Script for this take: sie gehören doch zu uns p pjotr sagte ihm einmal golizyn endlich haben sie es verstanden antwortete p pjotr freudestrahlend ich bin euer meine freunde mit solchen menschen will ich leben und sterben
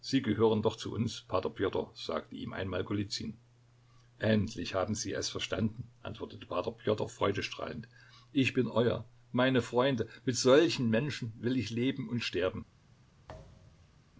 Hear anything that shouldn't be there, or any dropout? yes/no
yes